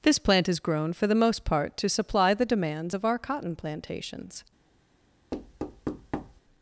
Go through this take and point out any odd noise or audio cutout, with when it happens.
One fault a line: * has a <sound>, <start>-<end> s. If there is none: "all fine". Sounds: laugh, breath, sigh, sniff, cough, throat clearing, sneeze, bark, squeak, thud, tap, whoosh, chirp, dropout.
* has a thud, 5.3-6.4 s